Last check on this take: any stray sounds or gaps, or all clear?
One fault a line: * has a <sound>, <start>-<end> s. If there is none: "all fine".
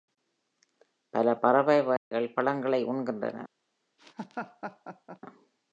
* has a dropout, 2.0-2.1 s
* has a laugh, 4.0-5.2 s